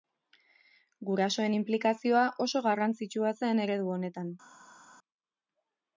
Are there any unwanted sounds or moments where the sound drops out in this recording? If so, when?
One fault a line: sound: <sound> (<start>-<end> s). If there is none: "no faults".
no faults